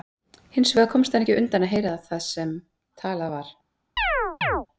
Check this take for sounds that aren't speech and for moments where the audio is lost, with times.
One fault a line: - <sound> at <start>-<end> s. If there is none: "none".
- chirp at 4.0-4.7 s